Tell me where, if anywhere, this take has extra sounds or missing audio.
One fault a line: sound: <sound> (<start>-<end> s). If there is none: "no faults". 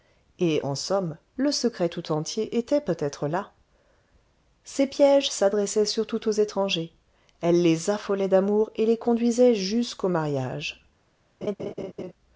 sound: laugh (11.4-12.1 s)